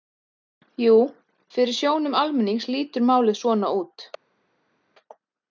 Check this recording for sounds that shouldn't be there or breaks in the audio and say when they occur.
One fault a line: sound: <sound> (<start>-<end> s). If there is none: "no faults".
no faults